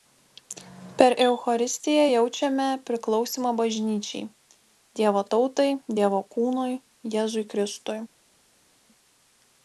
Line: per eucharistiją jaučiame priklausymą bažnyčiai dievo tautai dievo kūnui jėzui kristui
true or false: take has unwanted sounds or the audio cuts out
false